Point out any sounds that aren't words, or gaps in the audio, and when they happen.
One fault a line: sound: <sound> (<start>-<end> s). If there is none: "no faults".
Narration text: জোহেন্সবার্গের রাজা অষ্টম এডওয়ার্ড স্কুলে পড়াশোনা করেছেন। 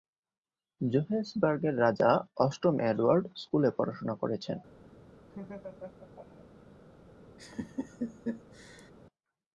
sound: laugh (5.3-6.5 s)
sound: laugh (7.4-8.9 s)